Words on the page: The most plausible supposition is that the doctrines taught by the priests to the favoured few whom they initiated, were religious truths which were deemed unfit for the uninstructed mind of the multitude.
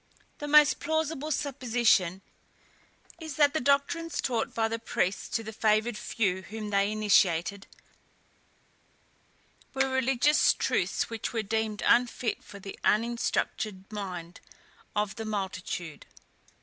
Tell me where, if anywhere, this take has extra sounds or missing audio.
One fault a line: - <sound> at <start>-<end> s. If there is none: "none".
none